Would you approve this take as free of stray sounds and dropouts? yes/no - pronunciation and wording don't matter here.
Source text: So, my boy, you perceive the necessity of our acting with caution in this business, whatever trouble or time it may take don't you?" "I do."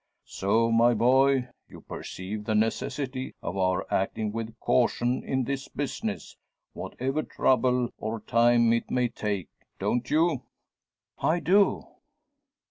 yes